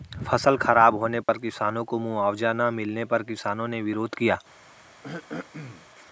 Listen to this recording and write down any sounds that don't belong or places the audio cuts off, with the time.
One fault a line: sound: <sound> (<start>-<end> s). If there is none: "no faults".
sound: dropout (1.2-1.3 s)
sound: throat clearing (5.0-5.9 s)